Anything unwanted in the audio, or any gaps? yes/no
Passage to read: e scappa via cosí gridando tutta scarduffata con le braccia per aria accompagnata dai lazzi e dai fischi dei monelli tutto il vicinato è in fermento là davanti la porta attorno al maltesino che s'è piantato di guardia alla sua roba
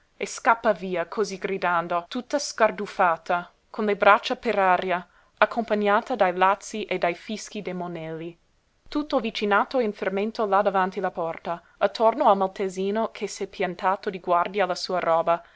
no